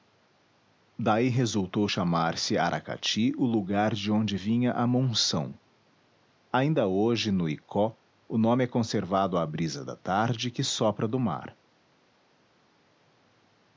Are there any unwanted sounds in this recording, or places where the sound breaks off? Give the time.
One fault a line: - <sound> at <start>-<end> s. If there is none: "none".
none